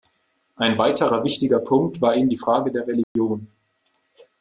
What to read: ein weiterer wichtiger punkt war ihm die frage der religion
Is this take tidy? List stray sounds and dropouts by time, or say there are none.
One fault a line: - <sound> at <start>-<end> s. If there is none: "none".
- dropout at 3.0-3.2 s